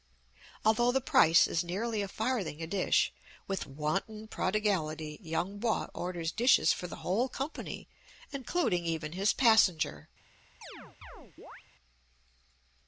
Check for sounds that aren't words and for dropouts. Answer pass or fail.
fail